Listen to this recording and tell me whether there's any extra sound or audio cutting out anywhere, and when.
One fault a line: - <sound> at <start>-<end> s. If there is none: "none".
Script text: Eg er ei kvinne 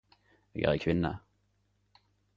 none